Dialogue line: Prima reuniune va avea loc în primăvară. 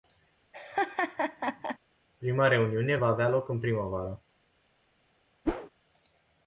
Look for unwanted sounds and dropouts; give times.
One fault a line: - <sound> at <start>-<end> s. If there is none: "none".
- laugh at 0.5-1.8 s
- whoosh at 5.5-5.7 s